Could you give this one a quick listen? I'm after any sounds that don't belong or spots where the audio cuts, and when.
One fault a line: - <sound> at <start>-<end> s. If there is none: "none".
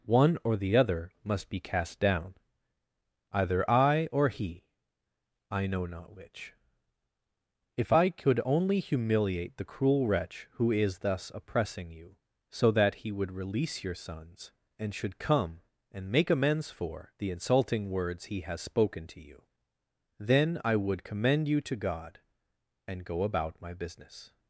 none